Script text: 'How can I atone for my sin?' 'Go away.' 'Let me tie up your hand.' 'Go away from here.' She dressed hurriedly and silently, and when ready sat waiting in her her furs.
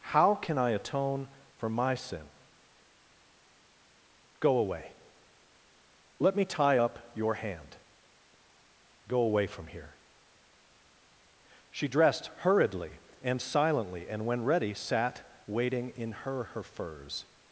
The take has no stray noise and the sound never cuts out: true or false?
true